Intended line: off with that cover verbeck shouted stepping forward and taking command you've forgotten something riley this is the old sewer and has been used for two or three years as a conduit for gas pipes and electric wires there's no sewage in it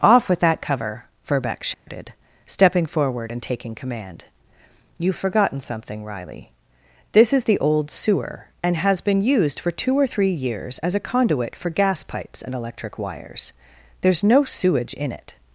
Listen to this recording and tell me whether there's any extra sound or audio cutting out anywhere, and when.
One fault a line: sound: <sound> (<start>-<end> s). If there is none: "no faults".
sound: dropout (1.7-1.9 s)